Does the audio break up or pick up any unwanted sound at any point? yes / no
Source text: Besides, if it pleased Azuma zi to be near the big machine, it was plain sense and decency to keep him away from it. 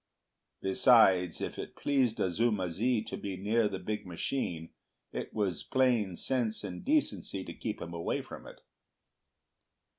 no